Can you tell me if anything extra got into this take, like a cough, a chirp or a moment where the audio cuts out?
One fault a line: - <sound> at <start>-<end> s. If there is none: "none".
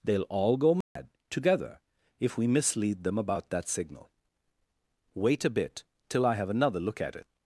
- dropout at 0.8-1.0 s